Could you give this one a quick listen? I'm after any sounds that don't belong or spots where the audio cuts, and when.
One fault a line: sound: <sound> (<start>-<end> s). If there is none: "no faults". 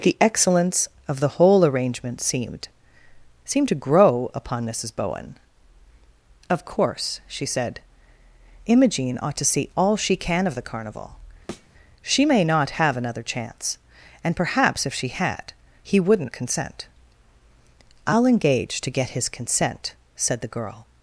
sound: thud (11.5-11.7 s)